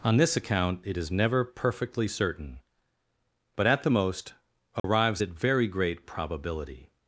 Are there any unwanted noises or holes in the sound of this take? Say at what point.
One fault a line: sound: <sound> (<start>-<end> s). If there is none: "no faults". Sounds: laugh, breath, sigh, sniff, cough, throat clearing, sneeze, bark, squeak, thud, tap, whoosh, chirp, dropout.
sound: dropout (4.8-4.8 s)